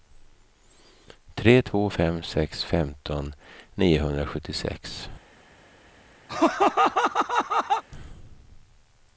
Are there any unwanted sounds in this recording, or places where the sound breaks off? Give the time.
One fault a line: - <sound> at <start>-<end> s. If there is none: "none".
- laugh at 6.3-7.8 s